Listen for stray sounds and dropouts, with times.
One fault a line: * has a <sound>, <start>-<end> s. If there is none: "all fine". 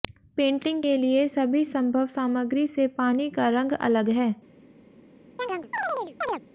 * has a chirp, 5.4-6.4 s